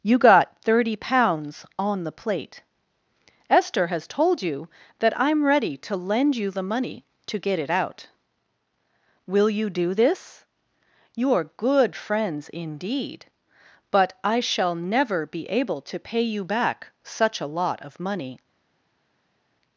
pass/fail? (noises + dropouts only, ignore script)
pass